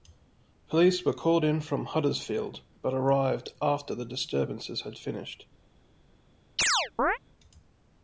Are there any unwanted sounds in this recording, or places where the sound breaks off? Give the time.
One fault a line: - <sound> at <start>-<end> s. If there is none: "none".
- chirp at 6.6-7.2 s